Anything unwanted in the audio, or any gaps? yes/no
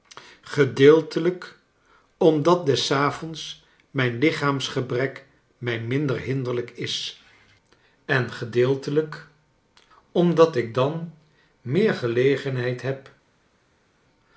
no